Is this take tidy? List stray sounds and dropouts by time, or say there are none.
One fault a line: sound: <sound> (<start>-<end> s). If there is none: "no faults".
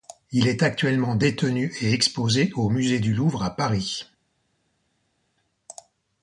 no faults